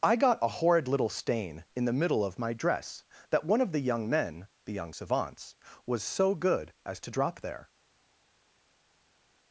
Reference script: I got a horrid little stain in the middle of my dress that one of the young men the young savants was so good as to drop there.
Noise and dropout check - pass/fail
pass